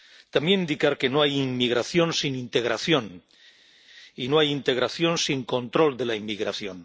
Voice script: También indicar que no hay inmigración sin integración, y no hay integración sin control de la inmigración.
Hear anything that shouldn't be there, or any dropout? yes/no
no